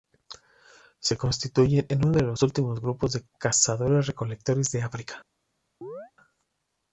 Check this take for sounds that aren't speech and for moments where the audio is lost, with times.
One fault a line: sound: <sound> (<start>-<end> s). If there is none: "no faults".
sound: chirp (5.8-6.1 s)